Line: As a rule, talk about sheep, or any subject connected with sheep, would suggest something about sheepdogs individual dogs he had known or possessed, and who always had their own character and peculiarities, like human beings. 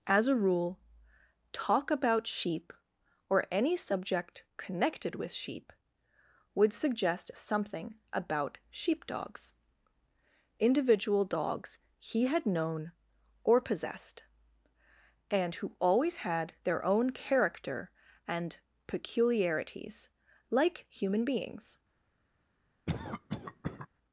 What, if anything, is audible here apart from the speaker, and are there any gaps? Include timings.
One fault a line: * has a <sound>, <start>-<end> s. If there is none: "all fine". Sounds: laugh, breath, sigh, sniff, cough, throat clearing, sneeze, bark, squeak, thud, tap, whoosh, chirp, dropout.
* has a cough, 22.9-23.9 s